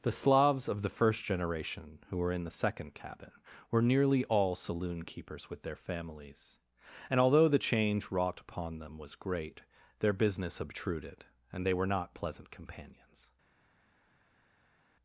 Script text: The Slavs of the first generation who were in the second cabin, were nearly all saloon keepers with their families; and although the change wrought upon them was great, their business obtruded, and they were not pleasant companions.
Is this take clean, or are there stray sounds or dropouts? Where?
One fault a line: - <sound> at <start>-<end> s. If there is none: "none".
none